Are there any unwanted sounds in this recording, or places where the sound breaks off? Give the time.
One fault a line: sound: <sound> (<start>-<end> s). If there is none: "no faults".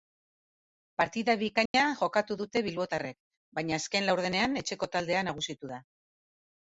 sound: dropout (1.7-1.7 s)